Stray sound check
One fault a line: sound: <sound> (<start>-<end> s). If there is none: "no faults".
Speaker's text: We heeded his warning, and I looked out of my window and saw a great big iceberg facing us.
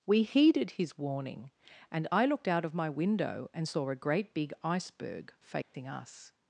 sound: dropout (5.6-5.7 s)